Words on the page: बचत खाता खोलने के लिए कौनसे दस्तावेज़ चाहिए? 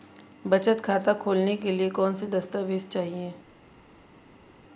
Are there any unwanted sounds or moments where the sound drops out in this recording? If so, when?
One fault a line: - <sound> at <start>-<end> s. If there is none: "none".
none